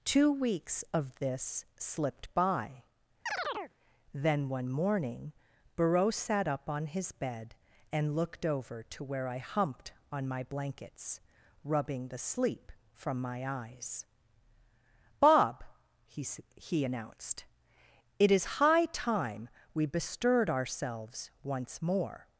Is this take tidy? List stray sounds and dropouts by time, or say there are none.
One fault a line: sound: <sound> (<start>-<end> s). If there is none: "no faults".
sound: chirp (3.3-3.7 s)